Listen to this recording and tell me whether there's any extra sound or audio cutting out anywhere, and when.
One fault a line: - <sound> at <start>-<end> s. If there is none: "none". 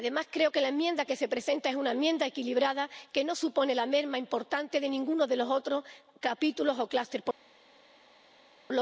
none